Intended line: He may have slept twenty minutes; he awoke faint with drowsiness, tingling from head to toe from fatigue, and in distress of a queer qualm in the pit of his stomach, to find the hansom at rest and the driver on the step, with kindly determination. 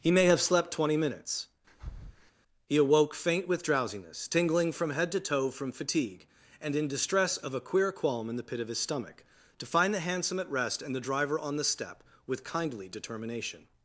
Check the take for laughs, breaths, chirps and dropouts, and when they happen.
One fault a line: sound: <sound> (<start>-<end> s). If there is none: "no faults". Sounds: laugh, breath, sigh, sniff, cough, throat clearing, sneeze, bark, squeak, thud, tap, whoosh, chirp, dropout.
sound: breath (1.7-2.3 s)